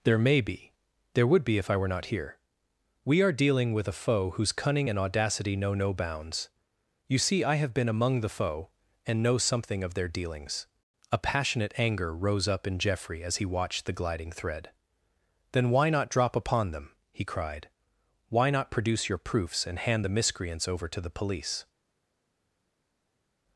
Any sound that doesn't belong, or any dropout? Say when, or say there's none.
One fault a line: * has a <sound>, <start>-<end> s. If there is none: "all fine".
all fine